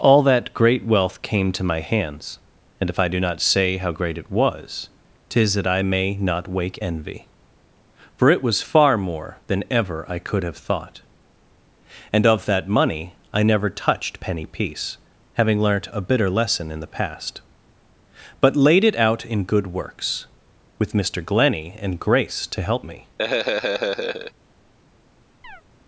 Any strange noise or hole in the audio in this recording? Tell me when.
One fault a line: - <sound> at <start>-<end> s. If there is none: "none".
- laugh at 23.2-24.3 s
- chirp at 25.4-25.6 s